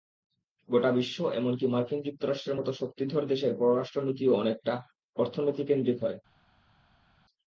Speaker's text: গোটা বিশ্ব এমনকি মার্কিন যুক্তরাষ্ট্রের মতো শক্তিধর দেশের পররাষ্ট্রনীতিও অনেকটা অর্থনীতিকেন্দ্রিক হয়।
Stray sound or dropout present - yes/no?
no